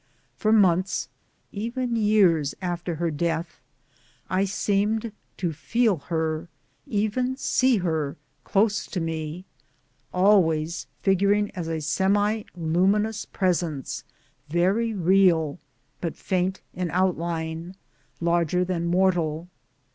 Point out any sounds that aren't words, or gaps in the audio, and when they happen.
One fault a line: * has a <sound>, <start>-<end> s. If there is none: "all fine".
all fine